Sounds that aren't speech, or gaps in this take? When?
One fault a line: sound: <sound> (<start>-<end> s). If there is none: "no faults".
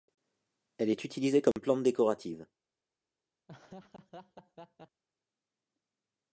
sound: dropout (1.5-1.6 s)
sound: laugh (3.5-5.0 s)